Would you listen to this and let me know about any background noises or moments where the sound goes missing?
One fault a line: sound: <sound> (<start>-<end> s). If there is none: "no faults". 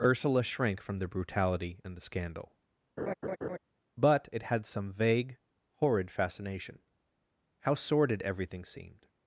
sound: laugh (3.0-3.6 s)